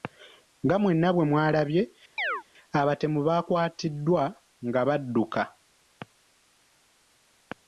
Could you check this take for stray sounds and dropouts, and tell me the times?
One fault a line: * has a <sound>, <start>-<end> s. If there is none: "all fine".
* has a chirp, 2.2-2.4 s